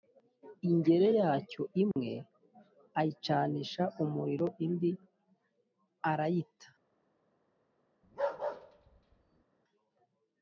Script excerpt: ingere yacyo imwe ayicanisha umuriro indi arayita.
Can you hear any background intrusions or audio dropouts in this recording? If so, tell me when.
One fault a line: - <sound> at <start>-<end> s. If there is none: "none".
- dropout at 1.9-2.0 s
- bark at 8.0-9.4 s